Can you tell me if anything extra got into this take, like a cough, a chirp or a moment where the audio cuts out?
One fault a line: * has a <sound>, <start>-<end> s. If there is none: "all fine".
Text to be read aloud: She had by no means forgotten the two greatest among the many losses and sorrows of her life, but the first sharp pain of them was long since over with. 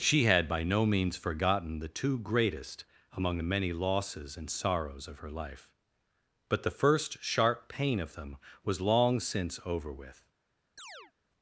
* has a chirp, 10.8-11.1 s